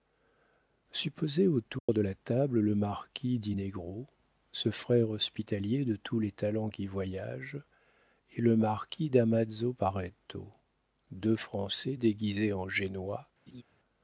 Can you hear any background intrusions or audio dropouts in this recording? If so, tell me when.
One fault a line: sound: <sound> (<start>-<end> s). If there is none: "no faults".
sound: dropout (1.8-1.9 s)
sound: laugh (13.5-13.6 s)